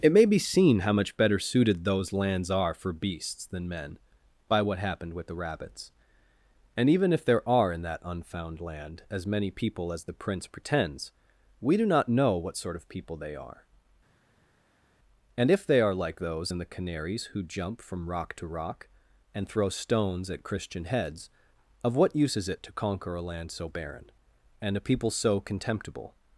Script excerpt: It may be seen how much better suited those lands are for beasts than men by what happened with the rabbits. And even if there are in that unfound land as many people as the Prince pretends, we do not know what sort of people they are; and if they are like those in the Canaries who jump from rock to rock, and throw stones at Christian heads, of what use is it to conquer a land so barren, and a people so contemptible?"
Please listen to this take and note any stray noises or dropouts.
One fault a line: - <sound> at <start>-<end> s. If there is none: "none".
none